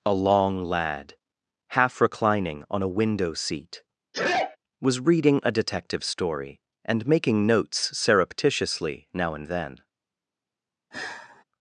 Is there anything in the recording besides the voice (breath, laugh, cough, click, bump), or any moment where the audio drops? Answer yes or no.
yes